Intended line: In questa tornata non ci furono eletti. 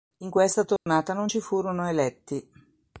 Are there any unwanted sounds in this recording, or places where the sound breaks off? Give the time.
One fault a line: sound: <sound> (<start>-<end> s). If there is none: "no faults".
sound: dropout (0.8-0.9 s)